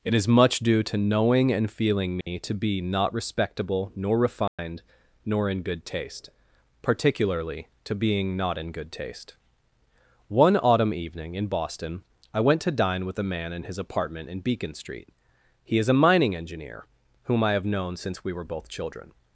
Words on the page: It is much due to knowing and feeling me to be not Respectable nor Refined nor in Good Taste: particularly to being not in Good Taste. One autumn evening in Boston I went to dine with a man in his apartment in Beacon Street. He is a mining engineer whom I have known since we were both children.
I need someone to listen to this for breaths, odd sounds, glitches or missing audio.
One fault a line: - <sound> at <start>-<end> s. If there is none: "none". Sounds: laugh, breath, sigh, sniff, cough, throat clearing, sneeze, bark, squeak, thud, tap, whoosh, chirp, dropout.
- dropout at 2.2-2.3 s
- dropout at 4.5-4.6 s